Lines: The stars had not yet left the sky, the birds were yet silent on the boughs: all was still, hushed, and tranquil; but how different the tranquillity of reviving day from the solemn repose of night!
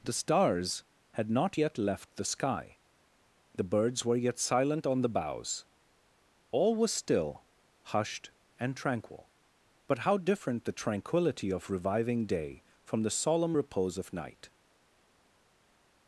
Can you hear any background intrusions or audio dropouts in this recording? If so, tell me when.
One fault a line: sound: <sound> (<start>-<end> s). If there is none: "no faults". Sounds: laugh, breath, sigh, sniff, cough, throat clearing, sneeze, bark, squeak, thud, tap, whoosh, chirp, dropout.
no faults